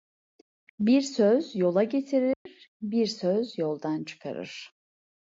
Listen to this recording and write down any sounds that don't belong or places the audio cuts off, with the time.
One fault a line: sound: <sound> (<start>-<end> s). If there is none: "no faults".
sound: dropout (2.3-2.5 s)